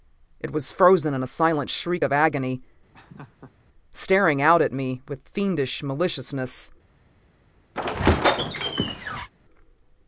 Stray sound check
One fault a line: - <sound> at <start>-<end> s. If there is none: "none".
- laugh at 2.9-3.6 s
- squeak at 7.7-9.3 s